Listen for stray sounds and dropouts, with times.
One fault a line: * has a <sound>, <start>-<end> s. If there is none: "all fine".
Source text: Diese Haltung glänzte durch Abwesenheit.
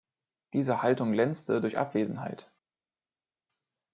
all fine